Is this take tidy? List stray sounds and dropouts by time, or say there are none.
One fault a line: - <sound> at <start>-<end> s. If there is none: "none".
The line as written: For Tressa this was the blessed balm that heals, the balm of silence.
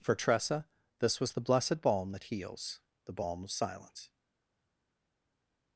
none